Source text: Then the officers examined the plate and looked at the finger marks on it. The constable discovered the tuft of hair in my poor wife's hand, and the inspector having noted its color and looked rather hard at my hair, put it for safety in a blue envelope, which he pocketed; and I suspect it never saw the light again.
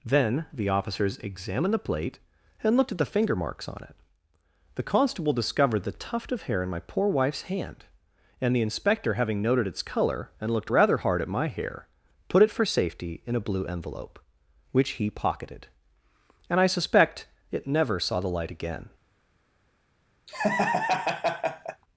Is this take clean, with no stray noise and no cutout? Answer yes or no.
no